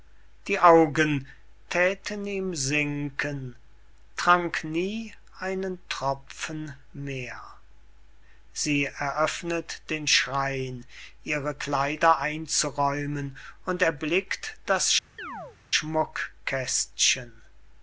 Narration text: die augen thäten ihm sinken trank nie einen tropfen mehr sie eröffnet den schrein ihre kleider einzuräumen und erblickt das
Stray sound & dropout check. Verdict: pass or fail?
fail